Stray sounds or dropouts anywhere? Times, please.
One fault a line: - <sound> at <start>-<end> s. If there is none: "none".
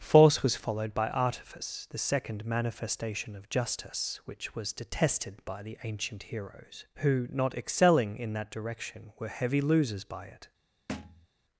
- thud at 10.9-11.3 s